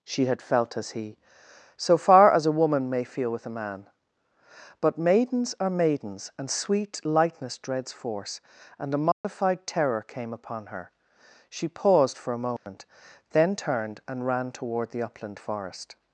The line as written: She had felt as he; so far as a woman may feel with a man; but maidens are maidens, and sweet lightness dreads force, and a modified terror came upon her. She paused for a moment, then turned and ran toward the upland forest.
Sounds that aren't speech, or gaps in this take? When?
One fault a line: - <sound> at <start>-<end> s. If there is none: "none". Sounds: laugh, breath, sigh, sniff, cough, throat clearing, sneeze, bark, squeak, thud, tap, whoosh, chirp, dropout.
- dropout at 9.1-9.2 s
- dropout at 12.6-12.7 s